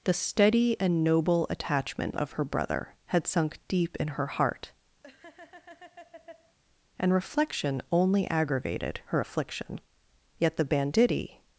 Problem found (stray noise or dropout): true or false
true